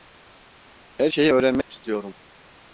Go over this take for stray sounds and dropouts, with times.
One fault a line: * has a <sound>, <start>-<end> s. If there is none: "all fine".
* has a dropout, 1.6-1.7 s